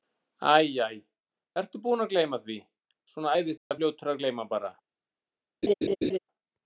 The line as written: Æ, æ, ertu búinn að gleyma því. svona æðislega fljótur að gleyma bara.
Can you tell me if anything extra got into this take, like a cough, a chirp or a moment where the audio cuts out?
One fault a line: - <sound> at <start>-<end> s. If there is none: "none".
- dropout at 3.6-3.7 s
- laugh at 5.6-6.2 s